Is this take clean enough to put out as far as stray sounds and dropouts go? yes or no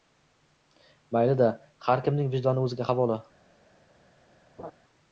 no